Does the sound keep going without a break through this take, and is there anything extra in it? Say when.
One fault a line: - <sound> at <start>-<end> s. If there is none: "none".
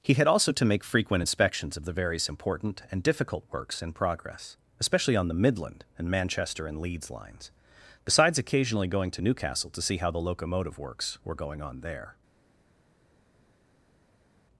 none